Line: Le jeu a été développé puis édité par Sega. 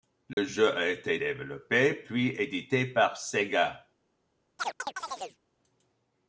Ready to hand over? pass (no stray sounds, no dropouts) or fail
fail